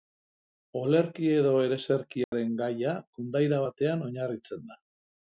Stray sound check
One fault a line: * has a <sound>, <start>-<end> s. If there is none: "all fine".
* has a dropout, 2.2-2.3 s